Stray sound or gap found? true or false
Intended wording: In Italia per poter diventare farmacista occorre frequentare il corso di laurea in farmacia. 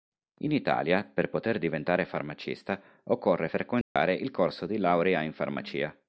true